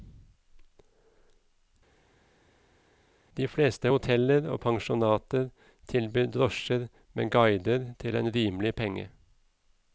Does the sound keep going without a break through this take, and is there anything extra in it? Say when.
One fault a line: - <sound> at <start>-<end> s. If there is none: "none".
none